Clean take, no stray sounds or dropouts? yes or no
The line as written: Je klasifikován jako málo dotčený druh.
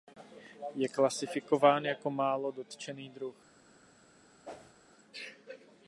no